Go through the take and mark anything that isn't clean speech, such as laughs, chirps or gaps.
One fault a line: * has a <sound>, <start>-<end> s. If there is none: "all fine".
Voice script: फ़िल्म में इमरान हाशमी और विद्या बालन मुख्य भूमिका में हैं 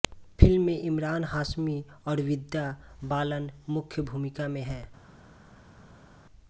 all fine